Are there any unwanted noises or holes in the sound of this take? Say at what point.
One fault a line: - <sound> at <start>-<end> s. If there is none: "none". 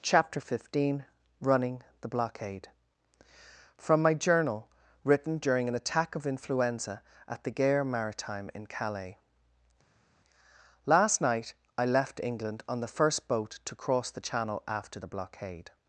none